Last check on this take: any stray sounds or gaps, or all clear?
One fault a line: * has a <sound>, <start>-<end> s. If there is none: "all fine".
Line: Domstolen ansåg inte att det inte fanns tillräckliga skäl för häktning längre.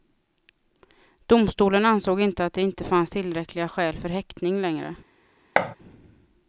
* has a thud, 5.6-5.8 s